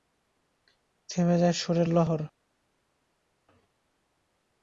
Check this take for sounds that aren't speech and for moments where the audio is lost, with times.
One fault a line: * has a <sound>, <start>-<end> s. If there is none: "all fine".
all fine